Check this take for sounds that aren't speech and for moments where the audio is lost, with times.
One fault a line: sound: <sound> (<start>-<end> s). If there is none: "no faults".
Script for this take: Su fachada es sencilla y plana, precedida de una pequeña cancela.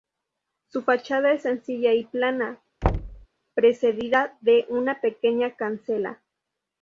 sound: thud (2.8-3.3 s)